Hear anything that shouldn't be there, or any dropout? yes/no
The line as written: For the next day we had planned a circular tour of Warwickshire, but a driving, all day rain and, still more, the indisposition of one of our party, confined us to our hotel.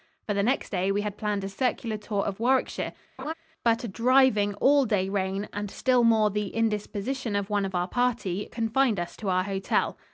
yes